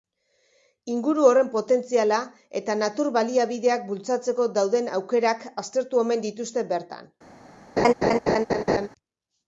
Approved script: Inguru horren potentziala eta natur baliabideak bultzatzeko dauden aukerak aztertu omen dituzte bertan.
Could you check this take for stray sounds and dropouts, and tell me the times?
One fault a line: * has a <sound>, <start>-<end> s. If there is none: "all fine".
* has a laugh, 7.8-8.9 s